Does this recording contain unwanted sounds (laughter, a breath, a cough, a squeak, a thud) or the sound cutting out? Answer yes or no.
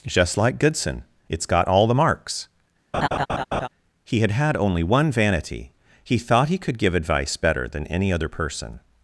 yes